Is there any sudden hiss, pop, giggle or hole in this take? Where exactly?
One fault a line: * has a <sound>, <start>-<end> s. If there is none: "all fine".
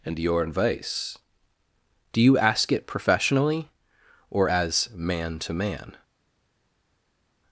all fine